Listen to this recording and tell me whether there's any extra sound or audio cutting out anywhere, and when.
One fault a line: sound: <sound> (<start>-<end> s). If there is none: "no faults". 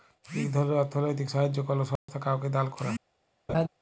sound: dropout (2.0-2.1 s)
sound: laugh (3.5-3.7 s)